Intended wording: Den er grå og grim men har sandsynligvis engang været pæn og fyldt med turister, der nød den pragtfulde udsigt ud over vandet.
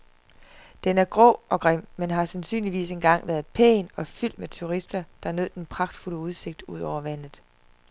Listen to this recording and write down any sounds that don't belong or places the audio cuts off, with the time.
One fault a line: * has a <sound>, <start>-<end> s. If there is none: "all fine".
all fine